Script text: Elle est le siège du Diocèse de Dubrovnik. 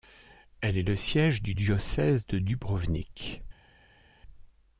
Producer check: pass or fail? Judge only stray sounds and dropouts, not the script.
pass